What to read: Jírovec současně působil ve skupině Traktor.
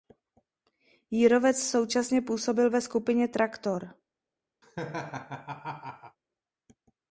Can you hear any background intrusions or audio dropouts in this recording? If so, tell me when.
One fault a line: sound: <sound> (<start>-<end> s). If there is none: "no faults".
sound: laugh (4.6-6.2 s)